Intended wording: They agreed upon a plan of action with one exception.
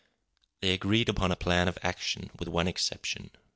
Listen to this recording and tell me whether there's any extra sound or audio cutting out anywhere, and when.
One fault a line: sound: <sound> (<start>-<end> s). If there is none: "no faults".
no faults